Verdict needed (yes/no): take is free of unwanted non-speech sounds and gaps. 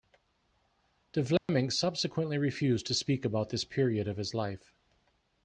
no